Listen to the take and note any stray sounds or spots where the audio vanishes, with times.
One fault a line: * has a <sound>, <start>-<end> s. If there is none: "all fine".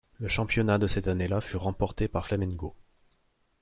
all fine